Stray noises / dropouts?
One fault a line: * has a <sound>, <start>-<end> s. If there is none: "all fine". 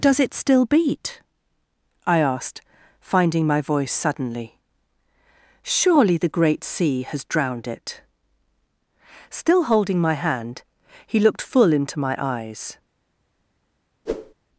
* has a whoosh, 14.1-14.3 s